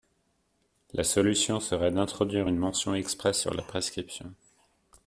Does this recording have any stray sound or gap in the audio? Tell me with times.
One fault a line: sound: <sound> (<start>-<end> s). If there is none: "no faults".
no faults